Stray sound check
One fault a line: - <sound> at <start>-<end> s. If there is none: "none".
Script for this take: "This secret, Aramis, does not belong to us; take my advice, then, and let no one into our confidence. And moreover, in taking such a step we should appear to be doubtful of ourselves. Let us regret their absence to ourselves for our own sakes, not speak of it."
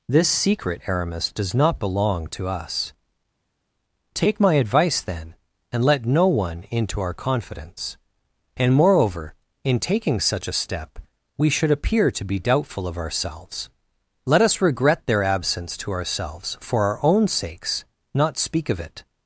none